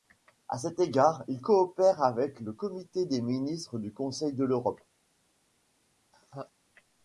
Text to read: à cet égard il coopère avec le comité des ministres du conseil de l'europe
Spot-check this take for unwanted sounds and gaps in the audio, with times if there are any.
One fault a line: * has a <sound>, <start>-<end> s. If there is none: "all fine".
* has a laugh, 6.1-6.5 s